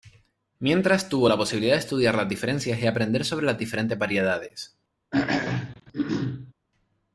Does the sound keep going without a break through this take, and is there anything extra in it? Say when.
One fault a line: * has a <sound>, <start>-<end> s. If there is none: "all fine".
* has a throat clearing, 5.1-6.5 s